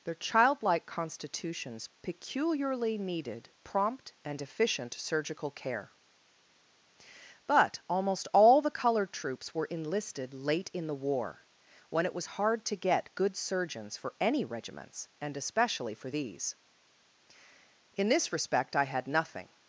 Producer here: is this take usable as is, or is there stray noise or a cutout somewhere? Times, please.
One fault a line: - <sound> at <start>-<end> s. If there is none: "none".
none